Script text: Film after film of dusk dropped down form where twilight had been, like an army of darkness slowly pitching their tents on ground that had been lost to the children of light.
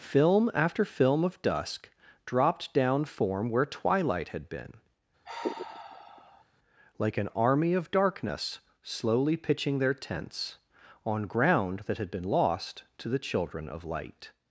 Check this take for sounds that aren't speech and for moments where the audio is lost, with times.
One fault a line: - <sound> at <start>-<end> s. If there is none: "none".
- sigh at 5.2-6.4 s